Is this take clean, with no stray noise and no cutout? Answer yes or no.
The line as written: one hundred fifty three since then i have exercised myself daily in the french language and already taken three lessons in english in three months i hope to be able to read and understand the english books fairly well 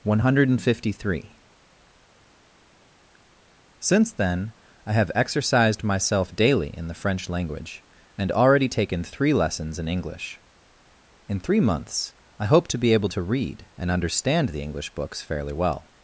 yes